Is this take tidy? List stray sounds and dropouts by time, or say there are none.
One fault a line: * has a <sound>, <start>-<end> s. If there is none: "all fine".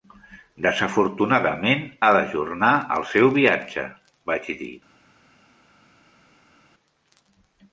all fine